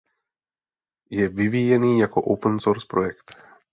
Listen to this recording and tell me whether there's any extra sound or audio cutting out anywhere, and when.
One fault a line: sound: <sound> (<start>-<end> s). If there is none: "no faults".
no faults